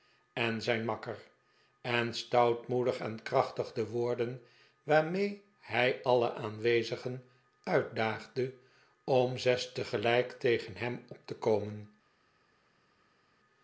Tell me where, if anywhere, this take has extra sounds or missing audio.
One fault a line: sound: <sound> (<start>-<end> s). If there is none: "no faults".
no faults